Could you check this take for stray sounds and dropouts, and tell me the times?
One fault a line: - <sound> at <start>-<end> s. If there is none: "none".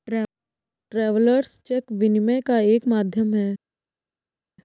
none